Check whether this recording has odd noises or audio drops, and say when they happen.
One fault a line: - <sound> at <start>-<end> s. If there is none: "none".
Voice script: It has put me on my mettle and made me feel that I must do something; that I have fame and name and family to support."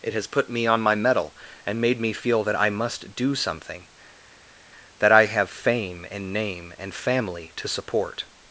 none